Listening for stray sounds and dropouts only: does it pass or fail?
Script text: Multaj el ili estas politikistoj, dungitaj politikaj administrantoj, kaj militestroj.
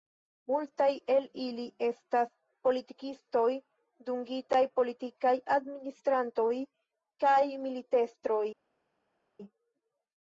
pass